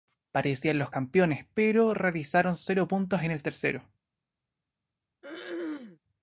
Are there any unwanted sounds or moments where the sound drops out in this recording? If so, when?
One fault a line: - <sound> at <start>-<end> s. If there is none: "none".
- throat clearing at 5.2-6.0 s